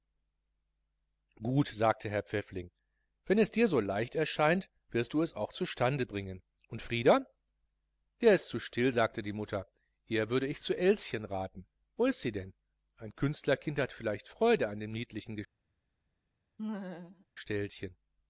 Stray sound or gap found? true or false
true